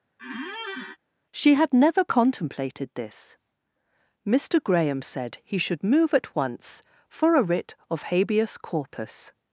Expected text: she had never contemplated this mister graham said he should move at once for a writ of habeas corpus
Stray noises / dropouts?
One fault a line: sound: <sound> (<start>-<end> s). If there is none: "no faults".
sound: squeak (0.2-1.0 s)